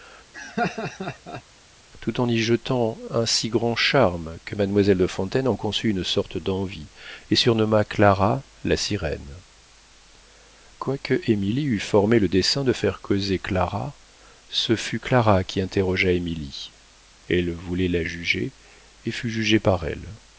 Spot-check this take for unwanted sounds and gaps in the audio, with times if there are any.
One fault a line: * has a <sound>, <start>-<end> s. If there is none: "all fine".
* has a laugh, 0.3-1.4 s